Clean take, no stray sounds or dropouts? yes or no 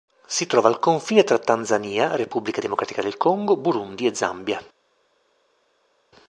yes